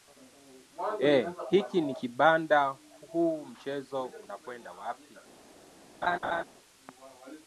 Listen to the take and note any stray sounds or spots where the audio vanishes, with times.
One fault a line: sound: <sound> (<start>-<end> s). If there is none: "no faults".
sound: laugh (6.0-6.4 s)